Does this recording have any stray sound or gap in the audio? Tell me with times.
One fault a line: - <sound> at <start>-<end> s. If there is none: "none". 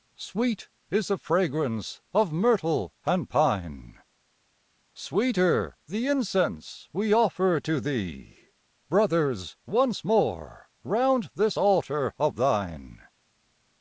none